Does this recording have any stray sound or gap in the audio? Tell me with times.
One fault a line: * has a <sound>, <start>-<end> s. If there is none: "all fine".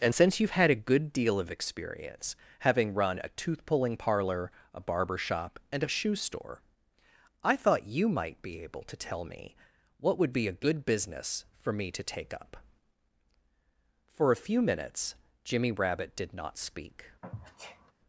* has a sneeze, 17.2-17.9 s